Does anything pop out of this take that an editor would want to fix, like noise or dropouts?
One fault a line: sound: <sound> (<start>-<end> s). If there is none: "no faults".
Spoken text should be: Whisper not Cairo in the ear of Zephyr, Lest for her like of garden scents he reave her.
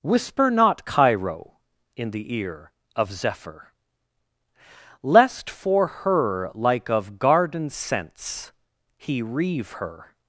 no faults